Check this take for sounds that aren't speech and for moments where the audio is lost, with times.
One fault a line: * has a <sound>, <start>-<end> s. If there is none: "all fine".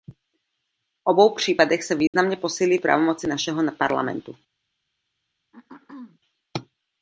* has a dropout, 2.1-2.1 s
* has a throat clearing, 5.5-6.2 s